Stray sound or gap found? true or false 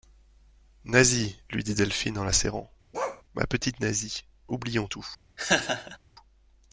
true